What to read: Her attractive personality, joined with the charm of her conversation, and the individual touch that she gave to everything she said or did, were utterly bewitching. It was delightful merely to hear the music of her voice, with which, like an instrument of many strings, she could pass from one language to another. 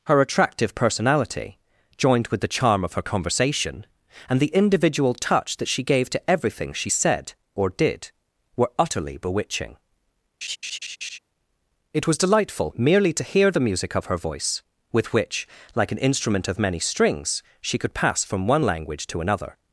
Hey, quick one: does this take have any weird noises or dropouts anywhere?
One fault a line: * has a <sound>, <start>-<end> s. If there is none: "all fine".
* has a laugh, 10.4-11.2 s